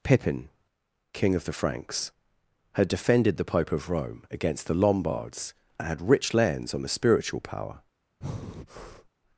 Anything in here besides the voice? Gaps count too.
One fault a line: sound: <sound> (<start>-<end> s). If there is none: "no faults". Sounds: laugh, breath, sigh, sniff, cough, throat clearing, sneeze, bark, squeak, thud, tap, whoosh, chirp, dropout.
sound: breath (8.2-9.1 s)